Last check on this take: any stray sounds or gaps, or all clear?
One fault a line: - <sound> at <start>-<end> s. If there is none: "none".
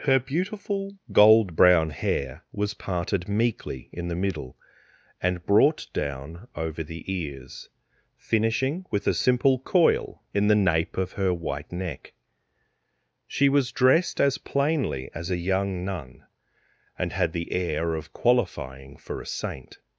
none